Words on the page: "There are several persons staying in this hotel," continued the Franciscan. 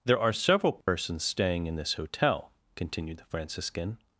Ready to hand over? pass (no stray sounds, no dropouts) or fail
fail